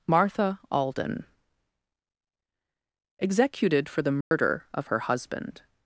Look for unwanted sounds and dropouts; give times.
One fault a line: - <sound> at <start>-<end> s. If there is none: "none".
- dropout at 4.2-4.3 s